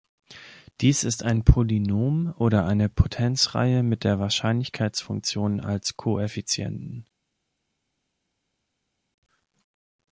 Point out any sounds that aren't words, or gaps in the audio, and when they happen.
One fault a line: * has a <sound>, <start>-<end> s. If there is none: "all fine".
all fine